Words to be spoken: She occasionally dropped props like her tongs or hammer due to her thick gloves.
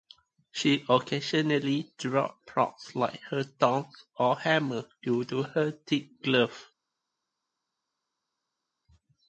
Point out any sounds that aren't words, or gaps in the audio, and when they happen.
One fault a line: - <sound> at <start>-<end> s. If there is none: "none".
none